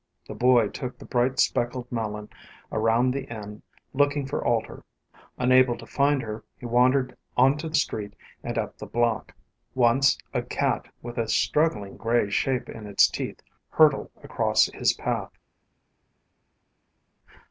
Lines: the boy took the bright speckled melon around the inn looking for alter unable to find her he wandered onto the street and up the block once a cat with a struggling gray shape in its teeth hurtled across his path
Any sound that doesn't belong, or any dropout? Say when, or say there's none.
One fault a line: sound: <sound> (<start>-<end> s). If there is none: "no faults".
no faults